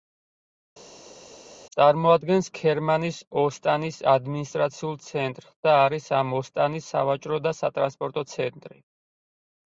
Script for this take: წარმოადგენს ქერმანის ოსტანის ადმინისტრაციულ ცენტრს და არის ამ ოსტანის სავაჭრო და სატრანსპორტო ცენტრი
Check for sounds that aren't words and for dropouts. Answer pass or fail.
pass